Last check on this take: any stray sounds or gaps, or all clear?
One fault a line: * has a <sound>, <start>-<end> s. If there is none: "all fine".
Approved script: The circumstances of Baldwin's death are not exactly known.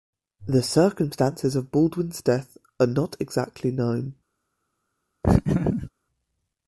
* has a laugh, 5.2-5.9 s